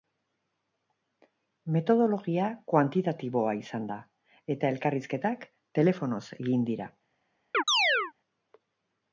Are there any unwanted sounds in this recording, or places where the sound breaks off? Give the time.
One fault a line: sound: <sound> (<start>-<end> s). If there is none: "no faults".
sound: chirp (7.5-8.1 s)